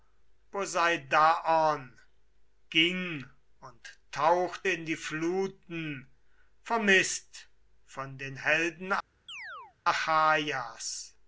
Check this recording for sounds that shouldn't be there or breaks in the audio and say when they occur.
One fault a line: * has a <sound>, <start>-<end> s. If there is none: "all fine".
* has a chirp, 9.3-9.8 s